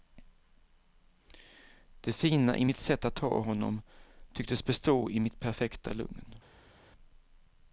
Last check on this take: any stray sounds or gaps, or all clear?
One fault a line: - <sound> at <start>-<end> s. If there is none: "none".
none